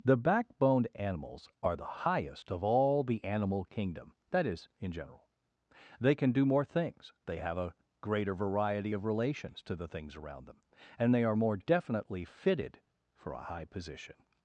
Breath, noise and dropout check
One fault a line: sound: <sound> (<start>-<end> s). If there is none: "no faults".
no faults